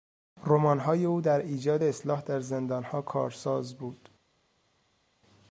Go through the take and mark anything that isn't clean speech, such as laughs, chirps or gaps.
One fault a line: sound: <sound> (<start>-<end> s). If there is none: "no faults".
no faults